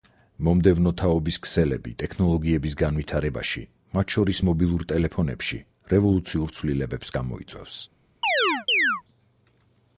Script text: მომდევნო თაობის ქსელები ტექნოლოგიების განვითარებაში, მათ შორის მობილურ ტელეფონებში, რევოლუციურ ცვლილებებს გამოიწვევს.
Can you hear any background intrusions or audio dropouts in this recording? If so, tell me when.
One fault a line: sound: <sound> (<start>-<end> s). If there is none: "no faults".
sound: chirp (8.2-9.0 s)